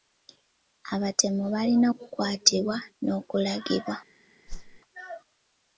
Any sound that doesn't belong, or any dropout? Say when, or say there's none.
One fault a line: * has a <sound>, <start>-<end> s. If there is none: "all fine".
* has a whoosh, 4.5-4.8 s